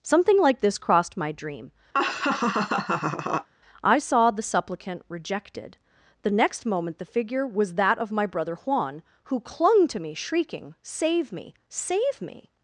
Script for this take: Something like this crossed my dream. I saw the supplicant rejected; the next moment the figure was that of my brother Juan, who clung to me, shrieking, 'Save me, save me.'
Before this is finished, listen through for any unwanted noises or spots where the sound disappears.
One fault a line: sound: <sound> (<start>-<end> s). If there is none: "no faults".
sound: laugh (1.9-3.5 s)